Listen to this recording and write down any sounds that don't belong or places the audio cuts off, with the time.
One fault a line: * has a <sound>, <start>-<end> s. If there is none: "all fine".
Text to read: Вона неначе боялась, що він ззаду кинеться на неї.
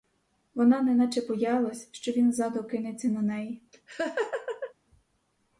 * has a laugh, 3.7-4.7 s